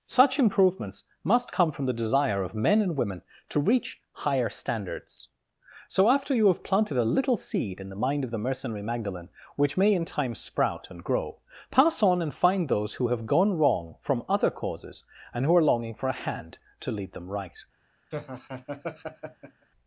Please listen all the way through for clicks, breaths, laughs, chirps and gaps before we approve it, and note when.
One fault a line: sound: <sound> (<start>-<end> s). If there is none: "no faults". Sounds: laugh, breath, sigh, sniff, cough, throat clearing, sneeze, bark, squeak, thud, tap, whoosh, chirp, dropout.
sound: laugh (18.1-19.7 s)